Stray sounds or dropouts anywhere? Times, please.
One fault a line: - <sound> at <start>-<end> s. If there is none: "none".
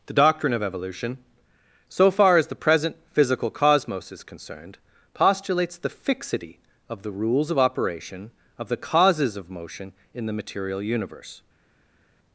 none